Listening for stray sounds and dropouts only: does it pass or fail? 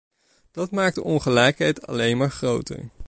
pass